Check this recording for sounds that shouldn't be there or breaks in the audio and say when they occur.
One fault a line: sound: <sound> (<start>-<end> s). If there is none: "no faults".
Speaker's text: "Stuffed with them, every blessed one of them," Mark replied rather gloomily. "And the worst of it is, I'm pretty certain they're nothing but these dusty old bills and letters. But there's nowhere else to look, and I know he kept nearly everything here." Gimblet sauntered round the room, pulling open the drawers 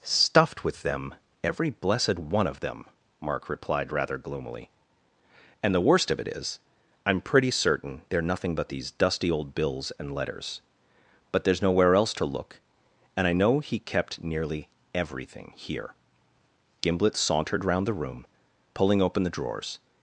no faults